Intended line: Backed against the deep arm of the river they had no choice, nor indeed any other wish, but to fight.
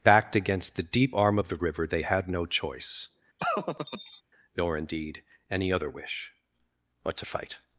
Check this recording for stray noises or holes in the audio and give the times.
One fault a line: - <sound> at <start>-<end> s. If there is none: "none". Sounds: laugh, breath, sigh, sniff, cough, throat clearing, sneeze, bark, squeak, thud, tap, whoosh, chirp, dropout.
- laugh at 3.4-4.2 s